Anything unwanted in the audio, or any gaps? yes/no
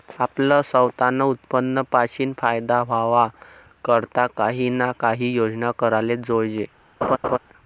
yes